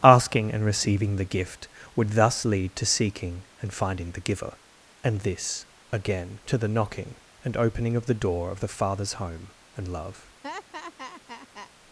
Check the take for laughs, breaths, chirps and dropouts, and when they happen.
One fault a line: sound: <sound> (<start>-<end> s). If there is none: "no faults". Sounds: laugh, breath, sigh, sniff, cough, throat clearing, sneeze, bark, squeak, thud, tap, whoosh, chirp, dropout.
sound: laugh (10.4-11.7 s)